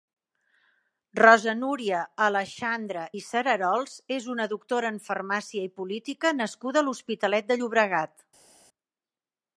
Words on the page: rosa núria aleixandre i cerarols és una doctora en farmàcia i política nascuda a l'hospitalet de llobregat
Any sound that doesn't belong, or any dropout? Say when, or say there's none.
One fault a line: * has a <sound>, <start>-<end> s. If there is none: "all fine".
all fine